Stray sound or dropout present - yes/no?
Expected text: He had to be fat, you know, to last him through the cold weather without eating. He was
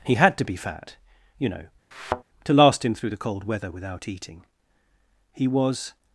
yes